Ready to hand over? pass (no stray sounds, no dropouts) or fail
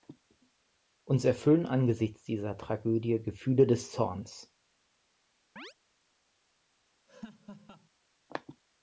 fail